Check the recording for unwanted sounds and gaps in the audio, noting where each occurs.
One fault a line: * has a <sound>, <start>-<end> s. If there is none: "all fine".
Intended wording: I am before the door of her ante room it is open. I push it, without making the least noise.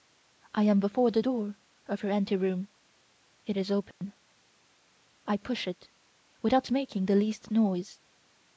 * has a dropout, 3.9-4.0 s